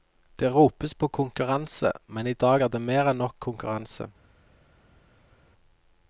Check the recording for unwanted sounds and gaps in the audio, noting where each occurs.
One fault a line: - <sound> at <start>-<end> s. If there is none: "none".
none